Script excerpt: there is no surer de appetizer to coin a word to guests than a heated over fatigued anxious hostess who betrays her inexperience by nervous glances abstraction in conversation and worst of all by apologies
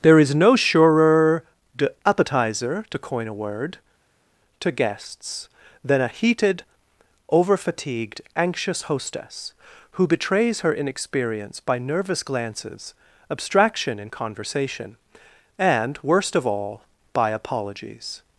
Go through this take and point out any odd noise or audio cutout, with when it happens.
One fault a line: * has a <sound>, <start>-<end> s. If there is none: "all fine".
all fine